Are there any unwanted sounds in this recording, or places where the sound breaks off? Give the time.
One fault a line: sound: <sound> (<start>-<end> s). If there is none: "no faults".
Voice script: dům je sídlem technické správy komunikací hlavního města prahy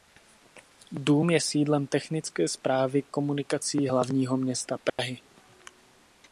sound: dropout (4.9-5.0 s)